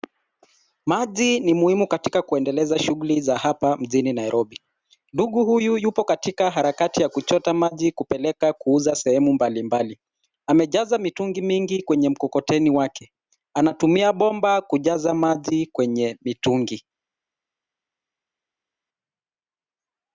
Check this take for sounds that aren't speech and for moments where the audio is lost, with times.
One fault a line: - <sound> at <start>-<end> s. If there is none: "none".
none